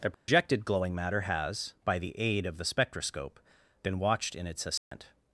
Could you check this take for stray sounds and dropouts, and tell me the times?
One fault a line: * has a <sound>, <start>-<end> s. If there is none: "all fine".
* has a dropout, 0.1-0.3 s
* has a dropout, 4.8-4.9 s